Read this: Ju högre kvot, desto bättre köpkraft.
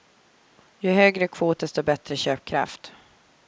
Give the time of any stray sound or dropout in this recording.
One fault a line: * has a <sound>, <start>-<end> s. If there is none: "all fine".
all fine